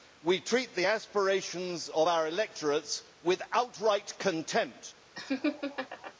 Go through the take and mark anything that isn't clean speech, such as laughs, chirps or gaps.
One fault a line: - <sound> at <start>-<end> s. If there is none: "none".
- laugh at 5.1-6.1 s